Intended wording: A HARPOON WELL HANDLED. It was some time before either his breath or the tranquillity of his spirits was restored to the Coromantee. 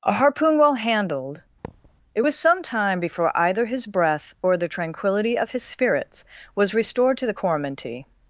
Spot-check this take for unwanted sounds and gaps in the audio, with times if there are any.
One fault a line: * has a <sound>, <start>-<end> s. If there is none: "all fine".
* has a thud, 1.6-1.9 s